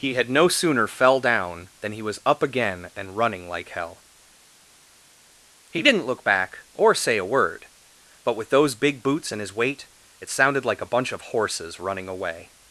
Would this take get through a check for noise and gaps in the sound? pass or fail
pass